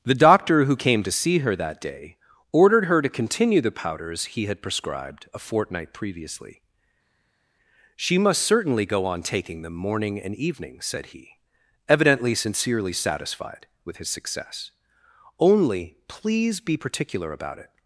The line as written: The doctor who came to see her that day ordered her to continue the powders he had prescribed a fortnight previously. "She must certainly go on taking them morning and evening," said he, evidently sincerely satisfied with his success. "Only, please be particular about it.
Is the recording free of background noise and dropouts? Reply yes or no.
yes